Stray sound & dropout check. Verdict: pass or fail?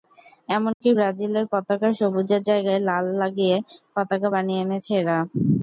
fail